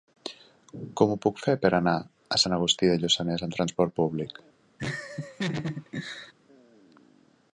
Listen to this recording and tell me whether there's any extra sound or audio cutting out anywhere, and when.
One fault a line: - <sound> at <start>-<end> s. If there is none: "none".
- laugh at 4.8-6.3 s